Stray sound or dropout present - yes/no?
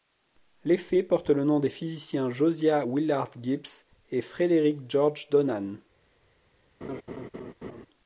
yes